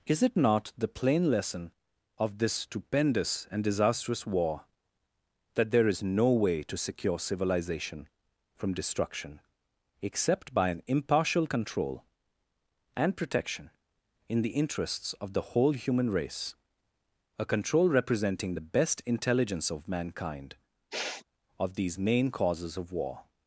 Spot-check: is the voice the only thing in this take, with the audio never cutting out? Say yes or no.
no